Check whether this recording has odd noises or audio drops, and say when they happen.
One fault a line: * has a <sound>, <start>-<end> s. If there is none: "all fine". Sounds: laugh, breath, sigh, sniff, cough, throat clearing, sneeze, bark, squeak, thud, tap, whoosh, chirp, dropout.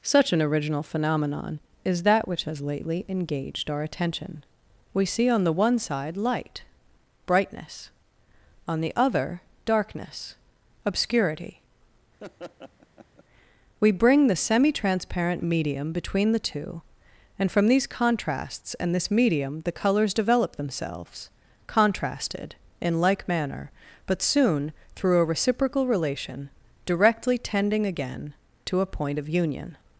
* has a laugh, 12.2-13.2 s